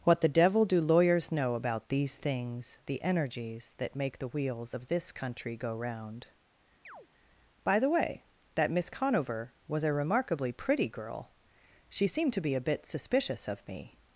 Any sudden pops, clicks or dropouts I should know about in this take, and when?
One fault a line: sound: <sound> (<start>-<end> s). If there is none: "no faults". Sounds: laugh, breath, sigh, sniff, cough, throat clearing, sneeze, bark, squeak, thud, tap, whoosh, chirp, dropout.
sound: chirp (6.8-7.1 s)